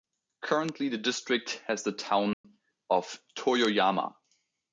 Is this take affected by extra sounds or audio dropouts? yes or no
yes